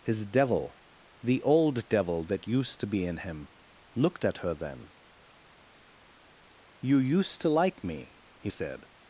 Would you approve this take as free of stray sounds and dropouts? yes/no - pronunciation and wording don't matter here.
yes